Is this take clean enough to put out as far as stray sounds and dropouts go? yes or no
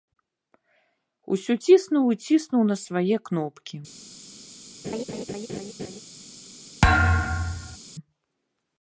no